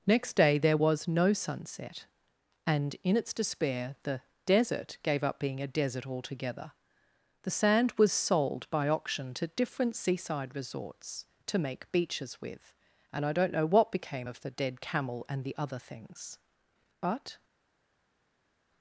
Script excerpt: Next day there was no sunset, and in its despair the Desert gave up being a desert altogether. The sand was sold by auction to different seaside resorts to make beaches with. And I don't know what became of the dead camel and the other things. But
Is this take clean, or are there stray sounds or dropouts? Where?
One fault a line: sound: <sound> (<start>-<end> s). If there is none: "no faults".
no faults